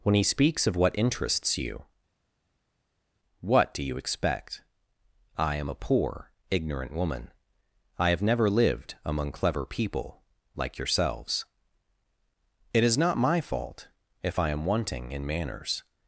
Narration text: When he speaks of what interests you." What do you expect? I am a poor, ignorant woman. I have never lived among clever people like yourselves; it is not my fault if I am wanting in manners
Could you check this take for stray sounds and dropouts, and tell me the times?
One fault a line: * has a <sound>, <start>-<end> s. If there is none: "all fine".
all fine